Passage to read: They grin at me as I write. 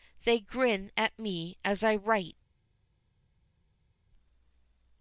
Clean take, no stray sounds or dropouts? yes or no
yes